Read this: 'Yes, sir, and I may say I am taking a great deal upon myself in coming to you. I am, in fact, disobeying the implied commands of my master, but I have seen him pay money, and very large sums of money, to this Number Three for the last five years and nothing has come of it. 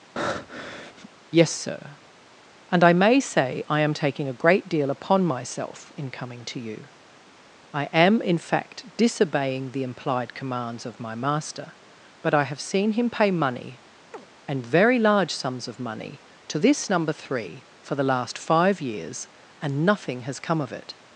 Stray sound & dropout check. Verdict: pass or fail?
fail